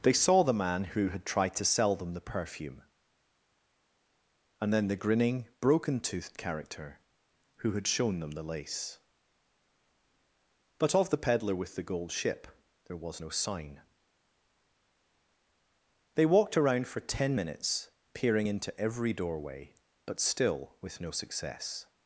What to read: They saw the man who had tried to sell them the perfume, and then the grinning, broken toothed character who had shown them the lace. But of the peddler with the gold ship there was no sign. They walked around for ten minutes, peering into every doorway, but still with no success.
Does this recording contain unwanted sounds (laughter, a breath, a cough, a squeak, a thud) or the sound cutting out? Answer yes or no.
no